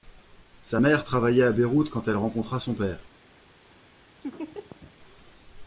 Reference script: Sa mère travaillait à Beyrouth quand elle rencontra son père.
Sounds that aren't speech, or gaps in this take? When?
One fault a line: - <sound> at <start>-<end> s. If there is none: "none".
- laugh at 4.2-4.9 s